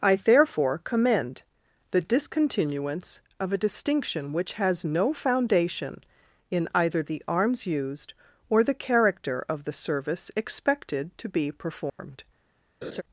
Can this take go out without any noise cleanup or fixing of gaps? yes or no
no